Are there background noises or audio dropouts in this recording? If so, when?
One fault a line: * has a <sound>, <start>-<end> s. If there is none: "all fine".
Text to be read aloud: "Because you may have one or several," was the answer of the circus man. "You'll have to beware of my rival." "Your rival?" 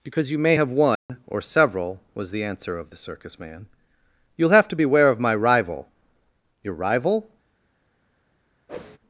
* has a dropout, 1.0-1.1 s
* has a whoosh, 8.7-9.0 s